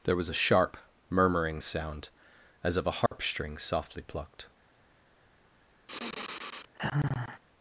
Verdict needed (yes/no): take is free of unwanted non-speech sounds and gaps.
no